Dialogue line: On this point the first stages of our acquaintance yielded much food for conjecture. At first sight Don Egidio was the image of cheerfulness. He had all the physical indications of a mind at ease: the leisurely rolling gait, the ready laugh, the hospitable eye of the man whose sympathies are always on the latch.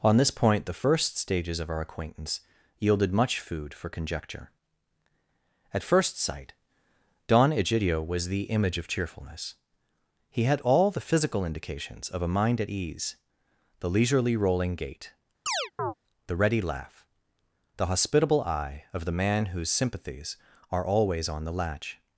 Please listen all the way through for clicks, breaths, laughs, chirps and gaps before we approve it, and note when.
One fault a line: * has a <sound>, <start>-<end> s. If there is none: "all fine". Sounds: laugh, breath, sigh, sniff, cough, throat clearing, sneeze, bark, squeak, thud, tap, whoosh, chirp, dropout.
* has a chirp, 15.5-15.9 s